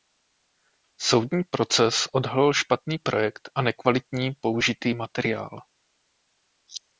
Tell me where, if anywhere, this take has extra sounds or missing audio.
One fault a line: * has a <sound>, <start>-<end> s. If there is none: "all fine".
all fine